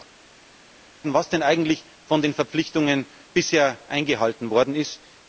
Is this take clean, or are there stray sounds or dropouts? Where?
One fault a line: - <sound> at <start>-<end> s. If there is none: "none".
none